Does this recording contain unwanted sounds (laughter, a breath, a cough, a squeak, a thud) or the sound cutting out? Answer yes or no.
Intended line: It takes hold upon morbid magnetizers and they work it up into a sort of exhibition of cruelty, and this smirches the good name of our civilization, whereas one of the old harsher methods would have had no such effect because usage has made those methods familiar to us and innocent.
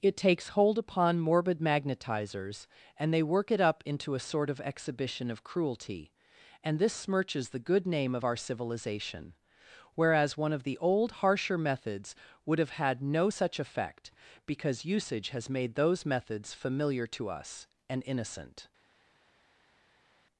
no